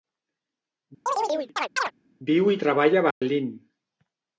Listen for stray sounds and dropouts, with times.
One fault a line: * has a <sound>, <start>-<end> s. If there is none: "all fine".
* has a chirp, 1.1-1.9 s
* has a dropout, 3.1-3.2 s